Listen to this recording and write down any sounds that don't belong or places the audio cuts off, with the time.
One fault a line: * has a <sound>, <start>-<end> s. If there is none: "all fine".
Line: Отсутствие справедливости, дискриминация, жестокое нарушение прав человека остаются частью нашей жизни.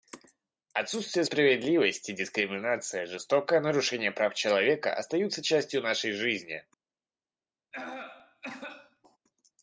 * has a cough, 7.7-9.2 s